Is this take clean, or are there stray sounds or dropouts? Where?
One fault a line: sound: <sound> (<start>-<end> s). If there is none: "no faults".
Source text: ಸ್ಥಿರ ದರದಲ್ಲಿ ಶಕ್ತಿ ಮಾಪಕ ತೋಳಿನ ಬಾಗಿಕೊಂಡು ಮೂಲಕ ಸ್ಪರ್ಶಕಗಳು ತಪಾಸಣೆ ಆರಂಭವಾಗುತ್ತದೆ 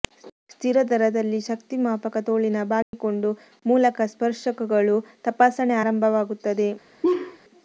sound: dropout (2.8-2.9 s)
sound: laugh (7.0-7.4 s)